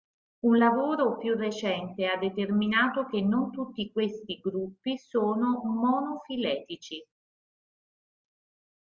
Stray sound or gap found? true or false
false